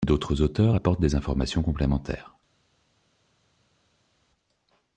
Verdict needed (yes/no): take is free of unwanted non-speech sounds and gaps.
yes